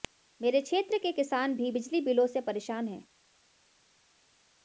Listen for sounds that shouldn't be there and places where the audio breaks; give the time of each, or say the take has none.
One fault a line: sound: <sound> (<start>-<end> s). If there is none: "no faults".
no faults